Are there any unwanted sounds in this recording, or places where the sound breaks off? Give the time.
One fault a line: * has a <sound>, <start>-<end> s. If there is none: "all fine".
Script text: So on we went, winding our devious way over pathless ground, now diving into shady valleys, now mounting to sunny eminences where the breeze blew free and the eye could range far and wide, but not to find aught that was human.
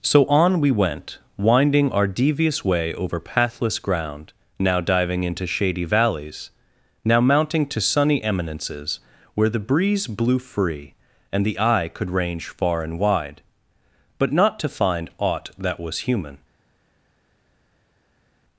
all fine